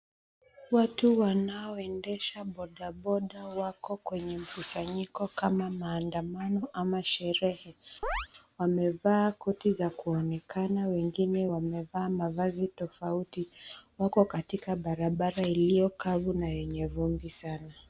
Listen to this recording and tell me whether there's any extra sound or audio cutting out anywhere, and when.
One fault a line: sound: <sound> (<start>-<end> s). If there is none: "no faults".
sound: chirp (8.0-8.3 s)